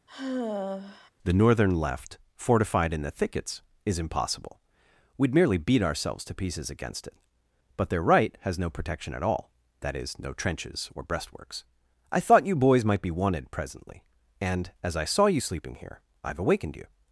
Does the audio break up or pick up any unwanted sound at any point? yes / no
yes